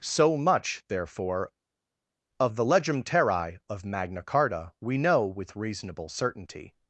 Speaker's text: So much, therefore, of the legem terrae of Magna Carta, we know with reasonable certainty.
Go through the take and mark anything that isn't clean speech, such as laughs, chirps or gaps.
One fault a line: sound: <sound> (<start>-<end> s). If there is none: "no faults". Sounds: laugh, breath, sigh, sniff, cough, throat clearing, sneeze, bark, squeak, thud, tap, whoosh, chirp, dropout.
no faults